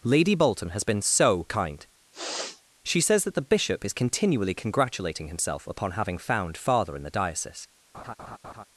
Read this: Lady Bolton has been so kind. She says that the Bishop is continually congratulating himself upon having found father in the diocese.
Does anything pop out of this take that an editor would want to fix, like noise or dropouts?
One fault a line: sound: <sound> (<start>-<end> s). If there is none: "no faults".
sound: sniff (2.1-2.6 s)
sound: laugh (7.9-8.6 s)